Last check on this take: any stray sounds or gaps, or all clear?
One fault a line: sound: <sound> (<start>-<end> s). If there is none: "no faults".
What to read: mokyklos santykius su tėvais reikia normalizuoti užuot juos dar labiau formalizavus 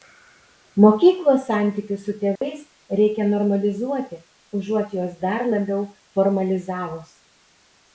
sound: dropout (2.4-2.4 s)